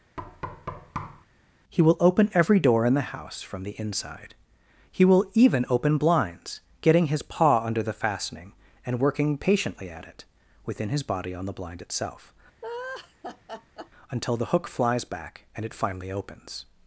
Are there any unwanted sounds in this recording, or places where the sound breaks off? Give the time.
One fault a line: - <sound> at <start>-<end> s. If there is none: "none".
- thud at 0.2-1.3 s
- laugh at 12.6-13.9 s